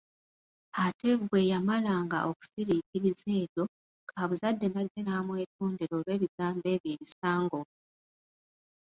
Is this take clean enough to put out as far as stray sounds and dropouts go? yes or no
no